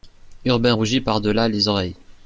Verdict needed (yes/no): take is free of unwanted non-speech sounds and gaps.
yes